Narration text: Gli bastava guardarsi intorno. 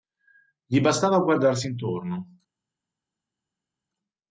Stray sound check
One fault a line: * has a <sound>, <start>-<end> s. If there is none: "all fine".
all fine